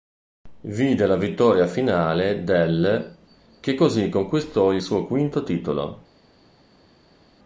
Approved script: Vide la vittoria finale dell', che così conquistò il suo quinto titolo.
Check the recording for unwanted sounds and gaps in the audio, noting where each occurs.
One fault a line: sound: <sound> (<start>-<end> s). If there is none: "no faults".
no faults